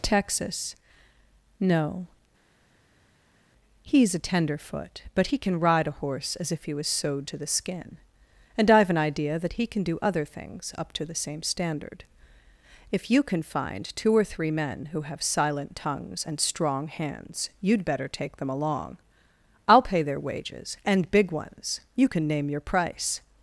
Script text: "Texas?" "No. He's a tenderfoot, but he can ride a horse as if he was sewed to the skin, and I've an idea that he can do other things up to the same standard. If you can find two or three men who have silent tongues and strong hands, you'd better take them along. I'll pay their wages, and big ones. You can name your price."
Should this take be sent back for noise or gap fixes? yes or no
no